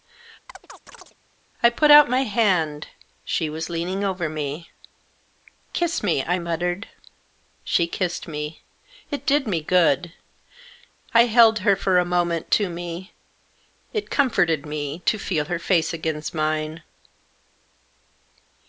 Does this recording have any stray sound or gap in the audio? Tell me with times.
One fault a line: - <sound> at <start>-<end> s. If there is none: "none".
- chirp at 0.5-1.2 s